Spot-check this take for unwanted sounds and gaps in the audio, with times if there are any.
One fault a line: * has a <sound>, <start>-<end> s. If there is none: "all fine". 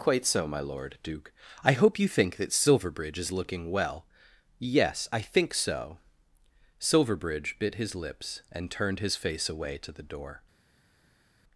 all fine